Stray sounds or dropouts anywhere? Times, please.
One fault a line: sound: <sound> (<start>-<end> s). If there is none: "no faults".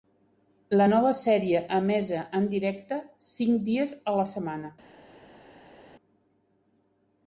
no faults